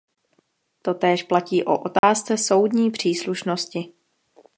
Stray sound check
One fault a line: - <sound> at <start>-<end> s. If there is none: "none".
- dropout at 2.0-2.0 s